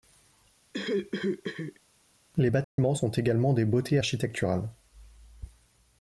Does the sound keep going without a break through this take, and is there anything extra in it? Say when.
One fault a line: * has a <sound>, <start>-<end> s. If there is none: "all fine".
* has a cough, 0.7-1.8 s
* has a dropout, 2.6-2.8 s